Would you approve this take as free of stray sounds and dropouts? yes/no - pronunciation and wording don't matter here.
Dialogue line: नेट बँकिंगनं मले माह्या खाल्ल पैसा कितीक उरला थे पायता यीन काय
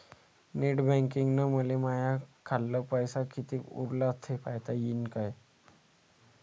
yes